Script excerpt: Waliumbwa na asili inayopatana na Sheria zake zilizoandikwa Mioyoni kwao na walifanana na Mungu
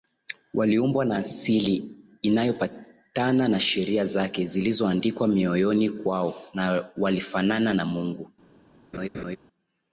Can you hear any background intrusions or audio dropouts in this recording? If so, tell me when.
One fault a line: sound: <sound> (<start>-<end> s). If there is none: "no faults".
sound: laugh (8.9-9.4 s)